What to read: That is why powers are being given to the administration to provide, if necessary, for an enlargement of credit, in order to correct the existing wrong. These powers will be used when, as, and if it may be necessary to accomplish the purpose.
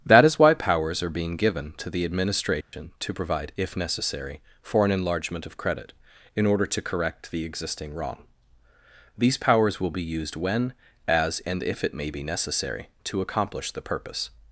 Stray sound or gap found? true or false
true